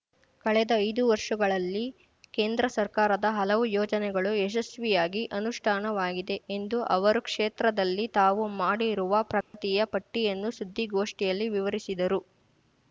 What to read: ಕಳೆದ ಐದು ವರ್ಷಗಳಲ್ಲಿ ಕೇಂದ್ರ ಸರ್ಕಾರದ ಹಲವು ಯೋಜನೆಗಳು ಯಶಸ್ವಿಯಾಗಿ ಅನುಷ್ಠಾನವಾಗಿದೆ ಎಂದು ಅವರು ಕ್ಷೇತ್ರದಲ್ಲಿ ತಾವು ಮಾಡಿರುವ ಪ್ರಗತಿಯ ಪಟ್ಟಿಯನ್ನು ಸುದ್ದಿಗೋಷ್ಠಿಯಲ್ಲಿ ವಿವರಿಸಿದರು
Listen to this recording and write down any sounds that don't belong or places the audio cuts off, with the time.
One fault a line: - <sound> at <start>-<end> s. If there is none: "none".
- dropout at 9.4-9.5 s